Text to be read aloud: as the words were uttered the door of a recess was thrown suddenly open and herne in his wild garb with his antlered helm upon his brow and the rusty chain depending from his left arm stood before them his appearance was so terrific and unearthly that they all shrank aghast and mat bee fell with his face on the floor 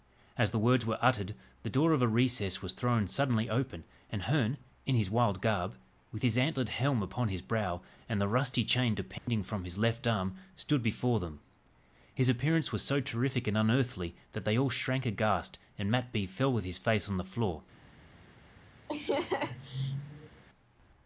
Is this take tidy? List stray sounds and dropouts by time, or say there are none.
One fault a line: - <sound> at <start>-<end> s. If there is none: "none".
- dropout at 9.2-9.3 s
- laugh at 18.9-20.4 s